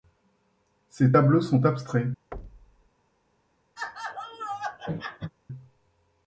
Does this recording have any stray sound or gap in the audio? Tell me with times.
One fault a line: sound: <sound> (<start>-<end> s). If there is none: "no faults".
sound: thud (2.3-2.9 s)
sound: laugh (3.8-5.3 s)